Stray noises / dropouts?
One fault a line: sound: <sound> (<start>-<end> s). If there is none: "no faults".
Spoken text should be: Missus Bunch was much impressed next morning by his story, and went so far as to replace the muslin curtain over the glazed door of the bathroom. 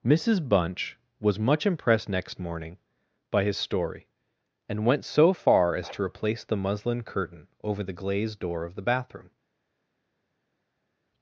no faults